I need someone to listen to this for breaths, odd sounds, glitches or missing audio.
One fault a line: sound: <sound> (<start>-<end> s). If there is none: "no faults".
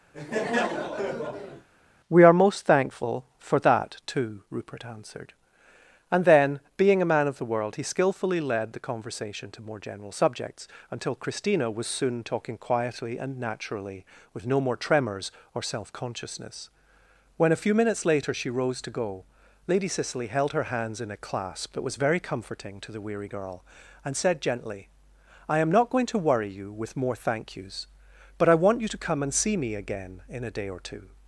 sound: laugh (0.1-1.7 s)